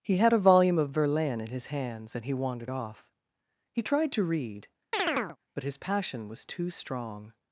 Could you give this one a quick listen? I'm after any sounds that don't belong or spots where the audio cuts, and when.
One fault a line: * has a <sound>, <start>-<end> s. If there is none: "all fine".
* has a chirp, 4.9-5.4 s